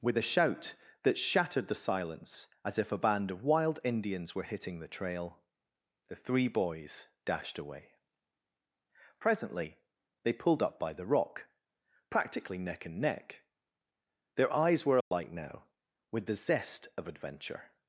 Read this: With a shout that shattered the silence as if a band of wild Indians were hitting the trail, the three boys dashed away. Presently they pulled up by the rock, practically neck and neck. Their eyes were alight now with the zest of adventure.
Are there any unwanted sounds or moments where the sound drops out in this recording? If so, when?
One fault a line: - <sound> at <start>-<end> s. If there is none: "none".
- dropout at 15.0-15.1 s